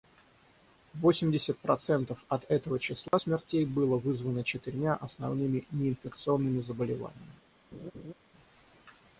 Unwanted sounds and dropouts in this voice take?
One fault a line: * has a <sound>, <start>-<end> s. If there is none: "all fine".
* has a dropout, 3.1-3.1 s
* has a laugh, 7.7-8.1 s